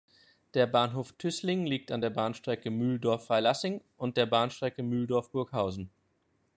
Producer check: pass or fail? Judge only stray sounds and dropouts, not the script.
pass